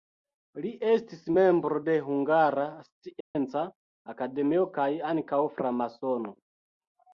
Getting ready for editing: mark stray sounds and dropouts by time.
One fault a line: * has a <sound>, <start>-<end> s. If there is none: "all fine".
* has a dropout, 3.2-3.4 s